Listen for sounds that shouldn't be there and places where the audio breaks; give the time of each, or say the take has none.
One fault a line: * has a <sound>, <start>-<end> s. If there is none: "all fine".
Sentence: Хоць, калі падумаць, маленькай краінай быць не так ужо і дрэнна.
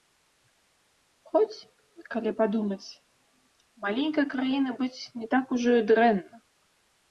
all fine